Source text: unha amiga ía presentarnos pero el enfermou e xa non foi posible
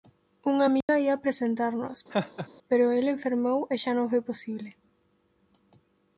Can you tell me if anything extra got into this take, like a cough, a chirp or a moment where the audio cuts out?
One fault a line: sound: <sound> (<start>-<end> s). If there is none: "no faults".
sound: dropout (0.8-0.9 s)
sound: laugh (2.1-2.5 s)